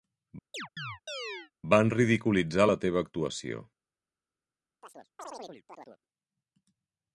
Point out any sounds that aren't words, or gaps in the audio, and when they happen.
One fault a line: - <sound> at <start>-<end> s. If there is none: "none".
- chirp at 0.5-1.5 s
- chirp at 4.8-6.0 s